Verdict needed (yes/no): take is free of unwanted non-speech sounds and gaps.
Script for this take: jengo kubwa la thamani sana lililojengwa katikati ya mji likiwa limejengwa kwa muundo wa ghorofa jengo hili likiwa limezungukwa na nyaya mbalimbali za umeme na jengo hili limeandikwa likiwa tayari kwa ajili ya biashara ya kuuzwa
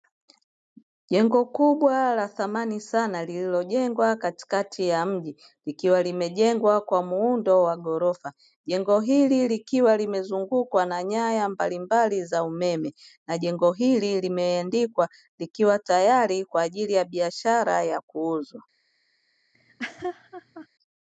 no